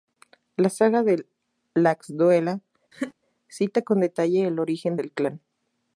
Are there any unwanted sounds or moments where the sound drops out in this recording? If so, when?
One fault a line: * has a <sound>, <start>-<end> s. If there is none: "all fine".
* has a laugh, 2.9-3.1 s